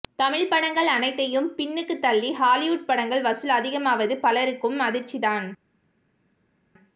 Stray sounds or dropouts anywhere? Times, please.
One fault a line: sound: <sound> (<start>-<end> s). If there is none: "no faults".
no faults